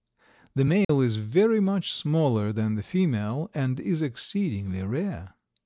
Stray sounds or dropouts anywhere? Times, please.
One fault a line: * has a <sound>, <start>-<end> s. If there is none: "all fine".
* has a dropout, 0.8-0.9 s